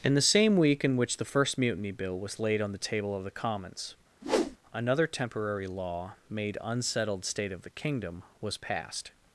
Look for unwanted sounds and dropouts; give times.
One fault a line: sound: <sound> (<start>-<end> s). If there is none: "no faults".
sound: whoosh (4.2-4.6 s)